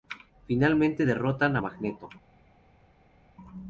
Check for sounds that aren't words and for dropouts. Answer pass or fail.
pass